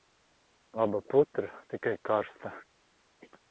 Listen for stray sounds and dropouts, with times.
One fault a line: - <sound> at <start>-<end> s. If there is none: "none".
none